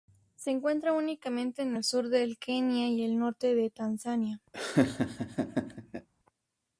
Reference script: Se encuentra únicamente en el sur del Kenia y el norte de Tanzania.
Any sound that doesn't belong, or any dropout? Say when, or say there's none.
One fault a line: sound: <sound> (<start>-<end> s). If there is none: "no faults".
sound: laugh (4.5-6.1 s)